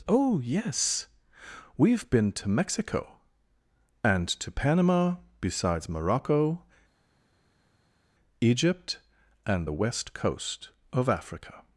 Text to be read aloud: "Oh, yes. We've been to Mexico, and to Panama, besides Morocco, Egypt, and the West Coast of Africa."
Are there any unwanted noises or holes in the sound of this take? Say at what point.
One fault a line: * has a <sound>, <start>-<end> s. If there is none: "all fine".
all fine